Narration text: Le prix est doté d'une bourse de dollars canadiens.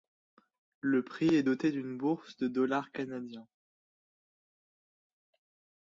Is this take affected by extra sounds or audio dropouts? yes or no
no